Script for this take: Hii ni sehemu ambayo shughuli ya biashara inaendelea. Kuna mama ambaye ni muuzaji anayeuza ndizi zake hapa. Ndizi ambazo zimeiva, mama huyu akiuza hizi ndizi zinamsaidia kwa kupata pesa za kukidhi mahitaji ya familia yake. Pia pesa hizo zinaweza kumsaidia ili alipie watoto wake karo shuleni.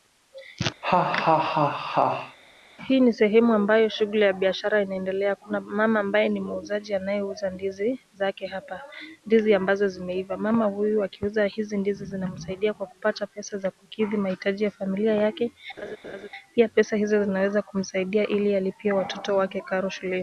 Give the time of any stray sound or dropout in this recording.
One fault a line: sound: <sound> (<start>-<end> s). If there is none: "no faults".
sound: laugh (0.8-2.4 s)
sound: laugh (15.8-16.3 s)